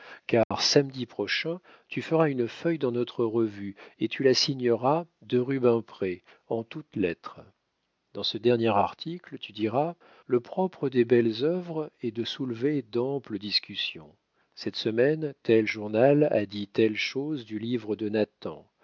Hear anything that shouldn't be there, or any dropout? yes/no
yes